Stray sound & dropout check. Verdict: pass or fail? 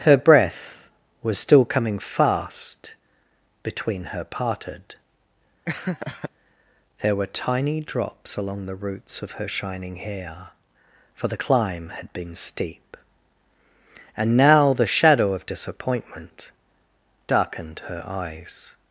fail